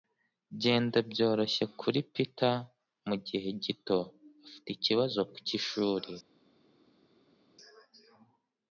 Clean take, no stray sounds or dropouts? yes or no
yes